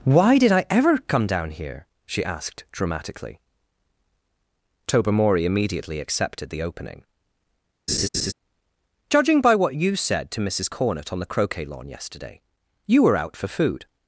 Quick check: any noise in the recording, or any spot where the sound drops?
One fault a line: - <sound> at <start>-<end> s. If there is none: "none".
- laugh at 7.9-8.3 s